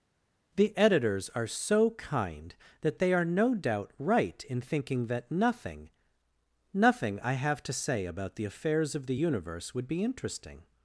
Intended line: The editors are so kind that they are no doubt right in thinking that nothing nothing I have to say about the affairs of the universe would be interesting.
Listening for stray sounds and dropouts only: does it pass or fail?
pass